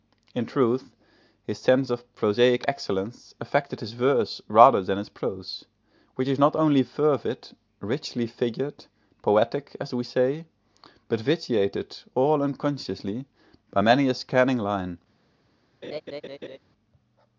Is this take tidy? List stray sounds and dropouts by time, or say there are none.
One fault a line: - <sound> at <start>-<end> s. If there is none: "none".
- laugh at 15.8-16.6 s